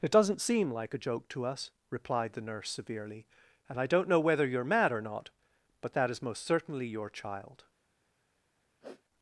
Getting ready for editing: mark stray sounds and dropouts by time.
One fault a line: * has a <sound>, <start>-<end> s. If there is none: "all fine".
* has a sniff, 8.8-9.0 s